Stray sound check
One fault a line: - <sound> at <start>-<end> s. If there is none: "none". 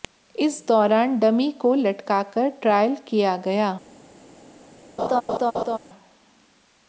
- laugh at 5.0-5.8 s